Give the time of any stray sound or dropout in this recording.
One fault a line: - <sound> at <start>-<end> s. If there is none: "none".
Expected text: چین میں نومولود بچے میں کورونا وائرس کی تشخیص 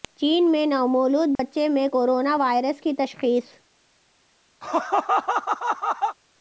- dropout at 1.4-1.4 s
- laugh at 4.6-6.2 s